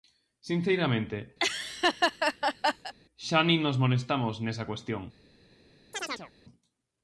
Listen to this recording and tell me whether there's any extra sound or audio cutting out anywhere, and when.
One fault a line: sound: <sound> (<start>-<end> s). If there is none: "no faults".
sound: laugh (1.4-2.9 s)
sound: chirp (5.9-6.3 s)